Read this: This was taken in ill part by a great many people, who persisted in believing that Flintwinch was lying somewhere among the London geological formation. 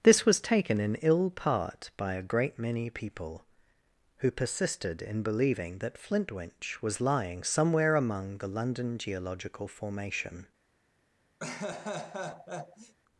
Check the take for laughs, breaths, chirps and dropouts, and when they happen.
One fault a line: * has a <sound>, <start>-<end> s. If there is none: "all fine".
* has a laugh, 11.4-12.9 s